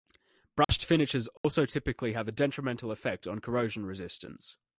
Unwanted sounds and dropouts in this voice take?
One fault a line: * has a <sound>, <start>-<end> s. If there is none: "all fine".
* has a dropout, 0.6-0.7 s
* has a dropout, 1.4-1.4 s